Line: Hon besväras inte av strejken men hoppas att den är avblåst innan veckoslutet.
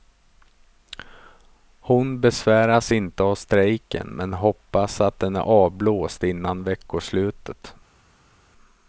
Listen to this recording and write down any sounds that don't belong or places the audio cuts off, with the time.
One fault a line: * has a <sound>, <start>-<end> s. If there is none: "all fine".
all fine